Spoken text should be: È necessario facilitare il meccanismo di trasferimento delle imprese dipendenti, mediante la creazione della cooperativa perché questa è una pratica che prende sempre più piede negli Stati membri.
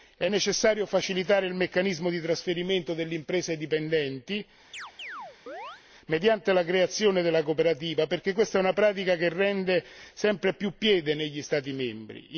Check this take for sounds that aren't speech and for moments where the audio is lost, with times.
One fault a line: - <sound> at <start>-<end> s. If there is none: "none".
- chirp at 4.7-5.8 s